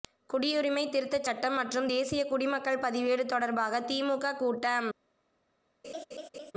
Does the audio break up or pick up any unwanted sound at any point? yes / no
yes